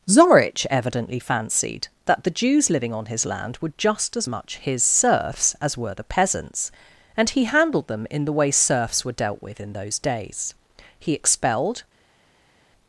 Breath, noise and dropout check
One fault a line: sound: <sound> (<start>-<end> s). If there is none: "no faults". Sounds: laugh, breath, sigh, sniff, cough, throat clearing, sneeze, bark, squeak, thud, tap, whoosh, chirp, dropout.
no faults